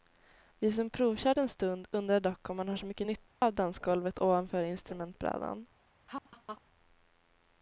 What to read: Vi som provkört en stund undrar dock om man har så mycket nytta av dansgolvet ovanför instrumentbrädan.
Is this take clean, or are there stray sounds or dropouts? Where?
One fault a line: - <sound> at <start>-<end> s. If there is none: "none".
- dropout at 3.3-3.4 s
- laugh at 6.1-6.6 s